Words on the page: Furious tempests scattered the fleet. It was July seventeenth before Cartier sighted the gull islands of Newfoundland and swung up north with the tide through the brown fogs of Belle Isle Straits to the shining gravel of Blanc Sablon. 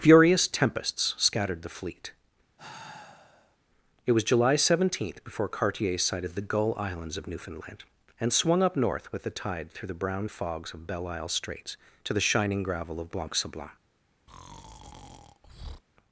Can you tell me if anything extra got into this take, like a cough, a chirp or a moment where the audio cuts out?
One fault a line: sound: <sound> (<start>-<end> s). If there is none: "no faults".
sound: sigh (2.6-3.6 s)
sound: breath (14.3-15.8 s)